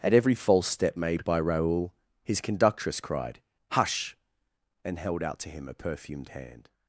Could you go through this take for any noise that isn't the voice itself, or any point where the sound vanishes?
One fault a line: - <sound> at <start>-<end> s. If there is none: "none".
none